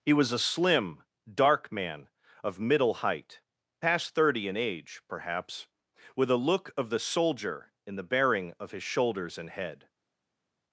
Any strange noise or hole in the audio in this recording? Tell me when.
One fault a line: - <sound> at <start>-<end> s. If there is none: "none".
none